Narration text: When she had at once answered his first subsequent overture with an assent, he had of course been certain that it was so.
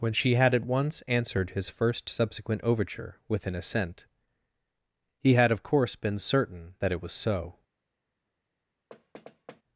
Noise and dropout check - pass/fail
fail